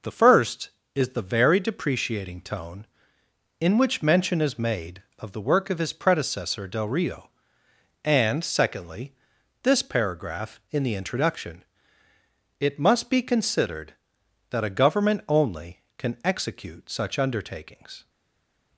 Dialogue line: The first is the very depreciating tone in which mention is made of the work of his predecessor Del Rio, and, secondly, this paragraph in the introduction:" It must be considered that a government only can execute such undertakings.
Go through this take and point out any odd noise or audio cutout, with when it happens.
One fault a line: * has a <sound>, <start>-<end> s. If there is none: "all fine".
all fine